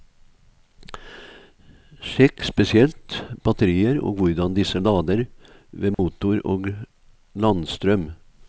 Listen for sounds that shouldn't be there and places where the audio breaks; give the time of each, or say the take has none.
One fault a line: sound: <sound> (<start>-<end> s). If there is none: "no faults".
sound: dropout (5.9-6.0 s)